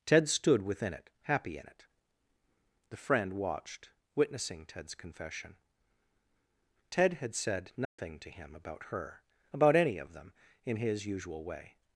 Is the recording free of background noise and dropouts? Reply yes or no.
no